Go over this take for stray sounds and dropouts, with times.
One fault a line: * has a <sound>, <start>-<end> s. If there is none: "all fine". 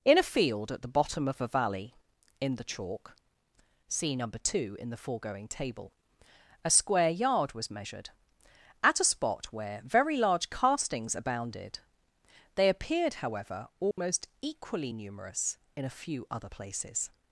* has a dropout, 13.9-14.0 s